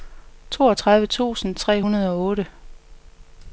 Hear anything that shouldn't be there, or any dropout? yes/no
no